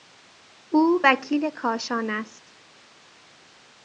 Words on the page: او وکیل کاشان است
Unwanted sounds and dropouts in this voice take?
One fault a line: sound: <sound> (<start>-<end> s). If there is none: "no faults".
no faults